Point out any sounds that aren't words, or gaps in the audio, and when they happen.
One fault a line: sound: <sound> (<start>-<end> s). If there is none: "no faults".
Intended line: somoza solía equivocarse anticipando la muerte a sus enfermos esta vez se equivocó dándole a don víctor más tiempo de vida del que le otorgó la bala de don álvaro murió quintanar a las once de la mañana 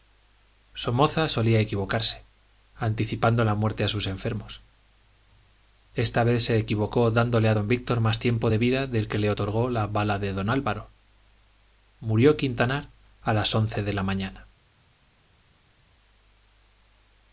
no faults